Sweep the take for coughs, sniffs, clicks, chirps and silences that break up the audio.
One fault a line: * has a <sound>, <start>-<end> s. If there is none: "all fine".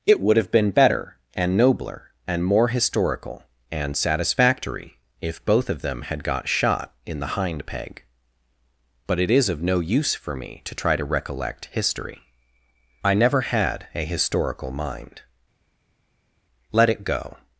all fine